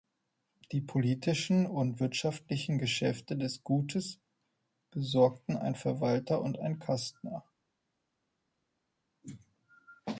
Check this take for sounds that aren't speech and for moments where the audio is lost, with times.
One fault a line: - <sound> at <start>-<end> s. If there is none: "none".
none